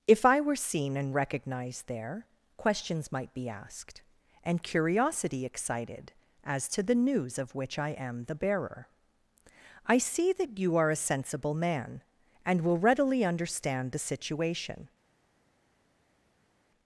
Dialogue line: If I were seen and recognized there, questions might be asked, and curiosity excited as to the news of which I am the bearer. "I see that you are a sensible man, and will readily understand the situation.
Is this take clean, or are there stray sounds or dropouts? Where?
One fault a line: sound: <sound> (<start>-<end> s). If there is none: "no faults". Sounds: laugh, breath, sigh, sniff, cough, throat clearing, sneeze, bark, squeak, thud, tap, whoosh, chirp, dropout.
no faults